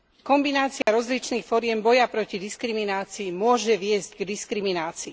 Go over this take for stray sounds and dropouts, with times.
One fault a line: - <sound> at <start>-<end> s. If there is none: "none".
- dropout at 0.8-0.9 s